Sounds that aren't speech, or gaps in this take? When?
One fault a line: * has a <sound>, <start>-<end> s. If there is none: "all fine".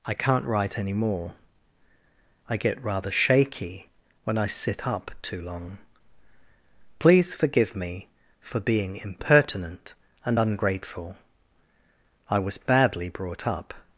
all fine